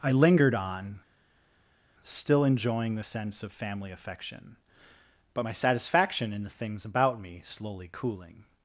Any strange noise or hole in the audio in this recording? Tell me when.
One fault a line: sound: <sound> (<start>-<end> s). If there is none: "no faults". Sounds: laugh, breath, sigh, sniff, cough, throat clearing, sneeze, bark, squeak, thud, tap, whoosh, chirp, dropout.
no faults